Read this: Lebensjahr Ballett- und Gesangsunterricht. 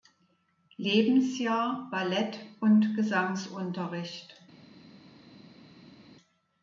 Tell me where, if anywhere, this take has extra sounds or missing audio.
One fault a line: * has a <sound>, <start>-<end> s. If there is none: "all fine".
all fine